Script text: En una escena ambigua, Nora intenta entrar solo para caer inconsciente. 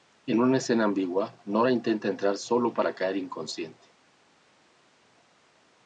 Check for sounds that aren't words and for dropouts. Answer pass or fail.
pass